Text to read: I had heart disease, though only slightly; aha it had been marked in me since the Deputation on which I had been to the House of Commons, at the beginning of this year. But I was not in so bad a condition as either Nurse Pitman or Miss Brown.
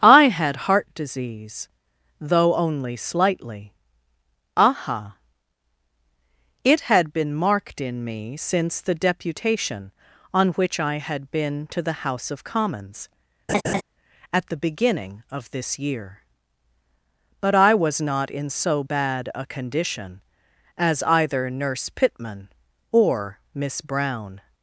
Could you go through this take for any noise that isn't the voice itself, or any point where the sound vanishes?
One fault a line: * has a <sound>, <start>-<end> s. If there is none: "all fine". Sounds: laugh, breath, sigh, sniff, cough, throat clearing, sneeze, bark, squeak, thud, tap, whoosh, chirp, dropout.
* has a laugh, 13.5-13.8 s